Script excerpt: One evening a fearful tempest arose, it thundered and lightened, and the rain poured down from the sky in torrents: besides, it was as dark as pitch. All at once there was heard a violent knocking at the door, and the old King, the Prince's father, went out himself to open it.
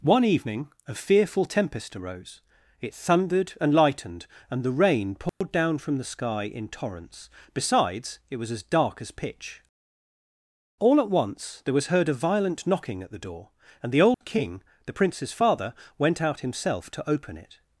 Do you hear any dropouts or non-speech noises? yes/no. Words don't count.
yes